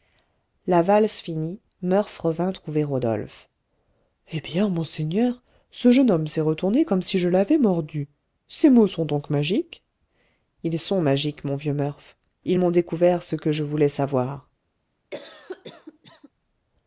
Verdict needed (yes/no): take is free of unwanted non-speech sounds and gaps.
no